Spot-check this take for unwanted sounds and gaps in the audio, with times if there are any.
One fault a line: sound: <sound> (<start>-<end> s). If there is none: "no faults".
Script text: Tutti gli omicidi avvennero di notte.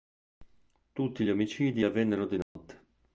sound: dropout (2.4-2.6 s)